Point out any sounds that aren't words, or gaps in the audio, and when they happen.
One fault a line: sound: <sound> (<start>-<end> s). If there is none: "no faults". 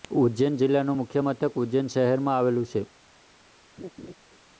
sound: laugh (3.8-4.1 s)